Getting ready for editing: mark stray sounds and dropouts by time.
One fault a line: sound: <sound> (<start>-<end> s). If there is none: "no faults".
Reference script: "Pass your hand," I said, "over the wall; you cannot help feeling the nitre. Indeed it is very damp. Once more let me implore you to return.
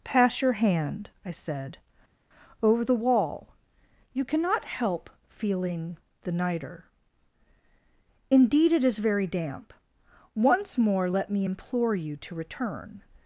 no faults